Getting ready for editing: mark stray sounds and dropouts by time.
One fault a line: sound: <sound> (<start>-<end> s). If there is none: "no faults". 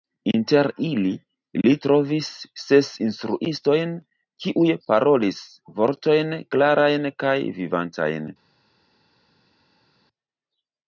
no faults